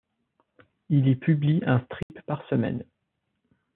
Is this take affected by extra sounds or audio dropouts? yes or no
yes